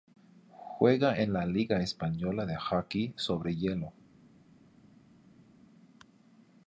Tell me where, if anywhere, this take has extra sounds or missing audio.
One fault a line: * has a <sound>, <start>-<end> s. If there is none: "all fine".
all fine